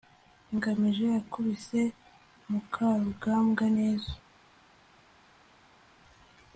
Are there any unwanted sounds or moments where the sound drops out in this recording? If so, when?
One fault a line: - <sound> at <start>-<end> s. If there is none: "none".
none